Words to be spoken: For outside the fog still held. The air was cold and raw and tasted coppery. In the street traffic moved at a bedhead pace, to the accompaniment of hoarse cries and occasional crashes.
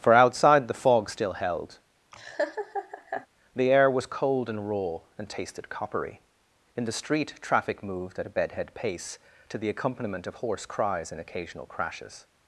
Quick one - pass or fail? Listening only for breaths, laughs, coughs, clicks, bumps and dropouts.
fail